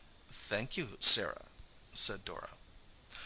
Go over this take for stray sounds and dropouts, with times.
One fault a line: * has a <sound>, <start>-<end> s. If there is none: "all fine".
all fine